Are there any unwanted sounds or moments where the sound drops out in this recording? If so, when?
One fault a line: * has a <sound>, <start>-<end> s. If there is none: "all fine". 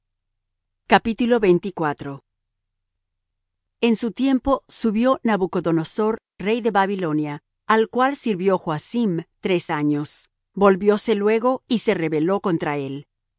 all fine